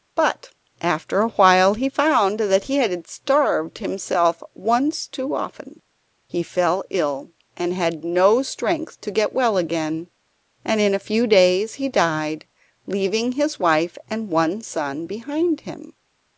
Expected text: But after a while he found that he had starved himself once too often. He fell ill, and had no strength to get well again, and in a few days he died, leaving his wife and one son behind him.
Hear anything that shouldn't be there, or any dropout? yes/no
no